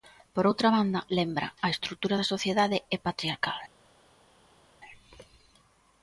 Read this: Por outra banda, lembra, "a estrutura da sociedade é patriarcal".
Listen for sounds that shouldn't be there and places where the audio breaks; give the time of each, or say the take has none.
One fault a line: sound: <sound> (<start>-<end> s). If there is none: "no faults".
no faults